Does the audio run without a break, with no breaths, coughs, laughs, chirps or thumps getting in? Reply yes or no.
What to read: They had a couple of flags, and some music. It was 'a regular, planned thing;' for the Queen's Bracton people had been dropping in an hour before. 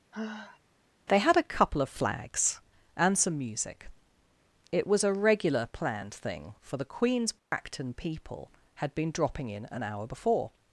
no